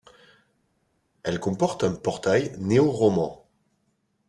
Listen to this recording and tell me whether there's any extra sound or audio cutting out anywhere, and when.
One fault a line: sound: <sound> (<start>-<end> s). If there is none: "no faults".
no faults